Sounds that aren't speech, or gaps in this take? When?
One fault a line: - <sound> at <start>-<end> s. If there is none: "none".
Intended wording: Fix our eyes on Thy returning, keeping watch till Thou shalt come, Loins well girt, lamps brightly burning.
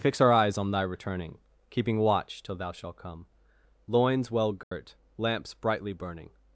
- dropout at 4.6-4.7 s